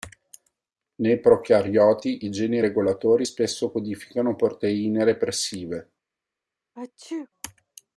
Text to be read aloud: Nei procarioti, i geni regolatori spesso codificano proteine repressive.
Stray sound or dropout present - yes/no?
yes